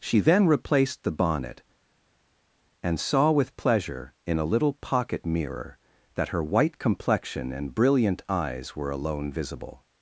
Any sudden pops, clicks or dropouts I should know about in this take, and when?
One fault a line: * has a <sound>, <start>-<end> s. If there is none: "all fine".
all fine